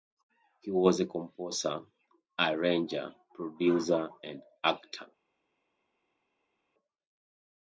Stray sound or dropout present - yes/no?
no